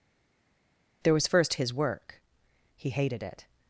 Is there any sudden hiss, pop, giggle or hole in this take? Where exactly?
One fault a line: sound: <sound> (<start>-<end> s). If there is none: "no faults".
no faults